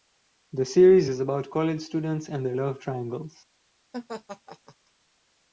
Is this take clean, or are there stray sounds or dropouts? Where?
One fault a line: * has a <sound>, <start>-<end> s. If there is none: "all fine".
* has a laugh, 3.9-4.8 s